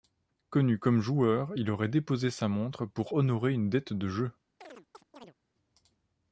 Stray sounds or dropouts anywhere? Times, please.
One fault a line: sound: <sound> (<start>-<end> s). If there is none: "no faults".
sound: chirp (4.6-5.3 s)